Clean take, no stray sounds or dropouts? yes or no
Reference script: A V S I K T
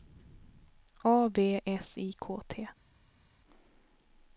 yes